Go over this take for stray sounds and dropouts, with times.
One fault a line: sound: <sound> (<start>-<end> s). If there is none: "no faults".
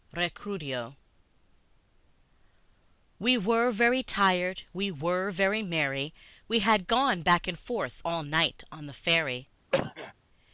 sound: cough (9.7-10.1 s)